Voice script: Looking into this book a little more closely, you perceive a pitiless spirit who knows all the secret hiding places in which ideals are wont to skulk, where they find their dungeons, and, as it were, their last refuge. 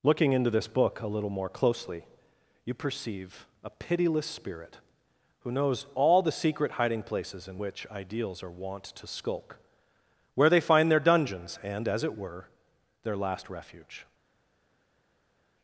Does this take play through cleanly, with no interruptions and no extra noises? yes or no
yes